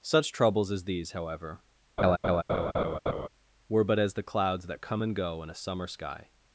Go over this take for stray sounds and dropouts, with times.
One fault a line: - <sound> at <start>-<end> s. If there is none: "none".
- laugh at 2.0-3.3 s